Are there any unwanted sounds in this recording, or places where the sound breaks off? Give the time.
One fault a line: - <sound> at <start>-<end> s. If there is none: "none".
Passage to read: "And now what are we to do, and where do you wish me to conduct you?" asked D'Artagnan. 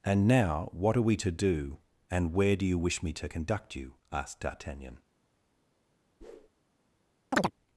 - whoosh at 6.2-6.5 s
- chirp at 7.3-7.5 s